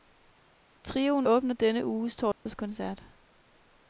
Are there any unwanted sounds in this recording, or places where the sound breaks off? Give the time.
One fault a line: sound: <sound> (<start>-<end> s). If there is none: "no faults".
sound: dropout (2.3-2.5 s)